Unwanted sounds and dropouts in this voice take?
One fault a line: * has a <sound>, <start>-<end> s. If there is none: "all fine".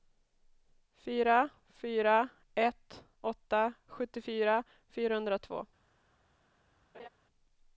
* has a laugh, 6.9-7.1 s